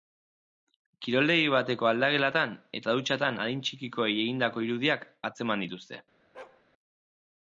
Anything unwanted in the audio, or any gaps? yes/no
yes